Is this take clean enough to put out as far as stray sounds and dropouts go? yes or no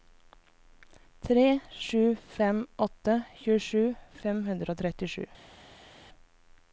yes